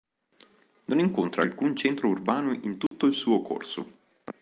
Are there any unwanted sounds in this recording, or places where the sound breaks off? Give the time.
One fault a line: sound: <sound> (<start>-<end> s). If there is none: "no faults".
sound: dropout (2.9-2.9 s)